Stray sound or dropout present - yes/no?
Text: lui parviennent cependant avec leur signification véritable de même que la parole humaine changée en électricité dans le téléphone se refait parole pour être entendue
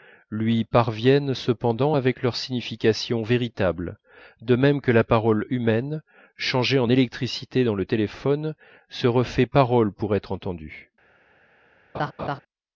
yes